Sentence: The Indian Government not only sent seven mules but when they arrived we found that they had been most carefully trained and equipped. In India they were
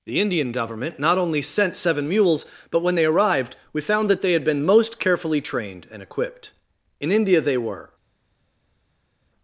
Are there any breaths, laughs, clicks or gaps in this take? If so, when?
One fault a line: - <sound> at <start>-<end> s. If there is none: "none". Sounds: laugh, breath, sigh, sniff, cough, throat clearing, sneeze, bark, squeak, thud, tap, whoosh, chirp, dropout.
none